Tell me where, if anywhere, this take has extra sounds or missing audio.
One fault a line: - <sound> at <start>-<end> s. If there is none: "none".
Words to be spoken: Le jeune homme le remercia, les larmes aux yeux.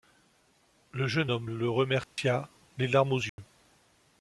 - dropout at 2.0-2.2 s
- dropout at 3.3-3.4 s